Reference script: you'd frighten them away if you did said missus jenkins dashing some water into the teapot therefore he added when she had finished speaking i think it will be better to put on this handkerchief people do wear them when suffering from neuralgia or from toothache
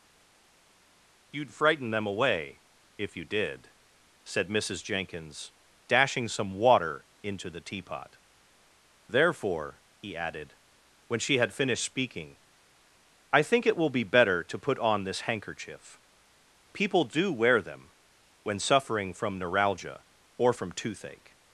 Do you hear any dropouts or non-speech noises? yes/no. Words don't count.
no